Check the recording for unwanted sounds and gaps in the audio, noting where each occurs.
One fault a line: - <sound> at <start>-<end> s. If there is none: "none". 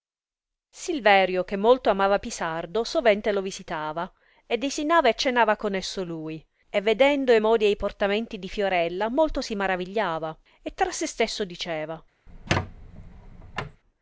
- squeak at 12.3-13.8 s